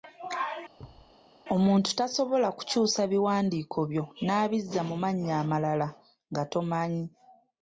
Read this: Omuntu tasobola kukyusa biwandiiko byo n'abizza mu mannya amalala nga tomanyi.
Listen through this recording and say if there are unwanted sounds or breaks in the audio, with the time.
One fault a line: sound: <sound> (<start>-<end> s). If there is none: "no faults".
sound: thud (0.8-1.2 s)